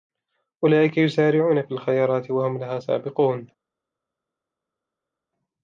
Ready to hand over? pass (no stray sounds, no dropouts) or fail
pass